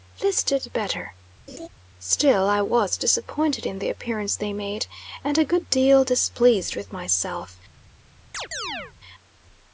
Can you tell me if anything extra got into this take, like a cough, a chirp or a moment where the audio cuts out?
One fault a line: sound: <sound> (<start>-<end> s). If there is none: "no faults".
sound: laugh (1.5-1.7 s)
sound: chirp (8.3-8.9 s)